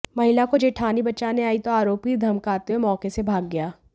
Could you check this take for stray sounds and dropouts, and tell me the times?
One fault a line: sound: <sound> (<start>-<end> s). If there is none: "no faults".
no faults